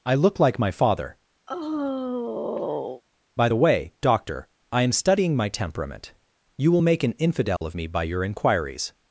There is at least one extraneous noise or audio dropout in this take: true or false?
true